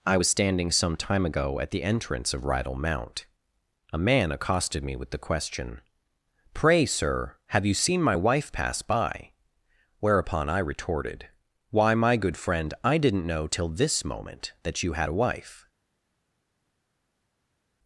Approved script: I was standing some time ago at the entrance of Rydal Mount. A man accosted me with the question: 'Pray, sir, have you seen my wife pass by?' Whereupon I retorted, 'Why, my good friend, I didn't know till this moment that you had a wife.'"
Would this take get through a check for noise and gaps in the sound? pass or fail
pass